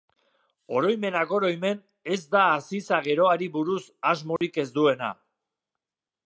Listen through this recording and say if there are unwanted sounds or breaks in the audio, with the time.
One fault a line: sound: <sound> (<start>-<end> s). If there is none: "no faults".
sound: dropout (4.4-4.4 s)